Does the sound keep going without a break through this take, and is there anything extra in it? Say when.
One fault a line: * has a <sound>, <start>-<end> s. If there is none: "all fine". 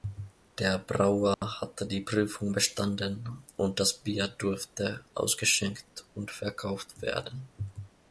* has a dropout, 1.3-1.4 s